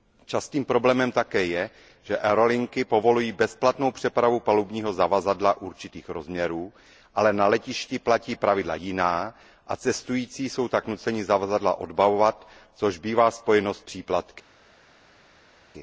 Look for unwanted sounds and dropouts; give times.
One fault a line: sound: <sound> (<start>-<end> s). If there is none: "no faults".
no faults